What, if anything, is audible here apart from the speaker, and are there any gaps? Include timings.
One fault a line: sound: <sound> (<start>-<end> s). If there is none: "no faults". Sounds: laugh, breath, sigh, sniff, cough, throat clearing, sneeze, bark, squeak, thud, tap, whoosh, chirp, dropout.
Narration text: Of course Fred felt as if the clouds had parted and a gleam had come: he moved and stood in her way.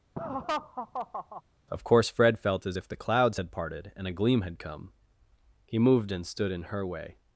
sound: laugh (0.2-1.4 s)